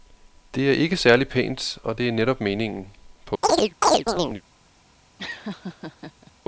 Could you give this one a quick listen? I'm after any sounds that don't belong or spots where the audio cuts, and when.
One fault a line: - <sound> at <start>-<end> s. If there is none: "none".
- chirp at 3.4-4.4 s
- laugh at 5.2-6.3 s